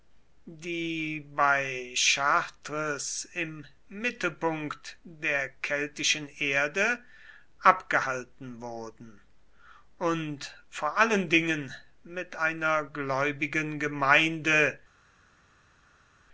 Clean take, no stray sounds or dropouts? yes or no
yes